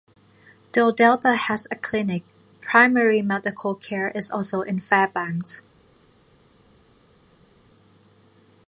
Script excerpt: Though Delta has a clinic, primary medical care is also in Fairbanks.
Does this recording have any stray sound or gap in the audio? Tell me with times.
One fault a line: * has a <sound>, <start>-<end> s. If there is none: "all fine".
all fine